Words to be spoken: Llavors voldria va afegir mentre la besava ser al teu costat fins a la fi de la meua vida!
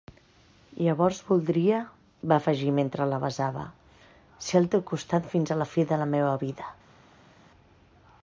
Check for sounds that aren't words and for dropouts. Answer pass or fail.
pass